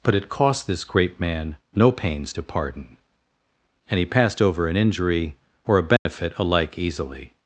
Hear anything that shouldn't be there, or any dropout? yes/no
yes